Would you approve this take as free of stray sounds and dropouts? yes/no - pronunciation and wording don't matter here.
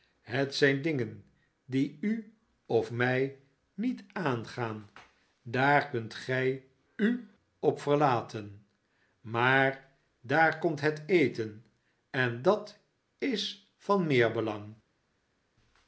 yes